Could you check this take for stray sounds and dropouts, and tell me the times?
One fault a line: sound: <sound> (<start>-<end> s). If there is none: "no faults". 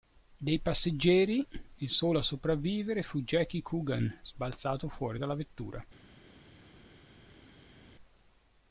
no faults